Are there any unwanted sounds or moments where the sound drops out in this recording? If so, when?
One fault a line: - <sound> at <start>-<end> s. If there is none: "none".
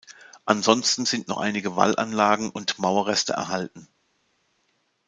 none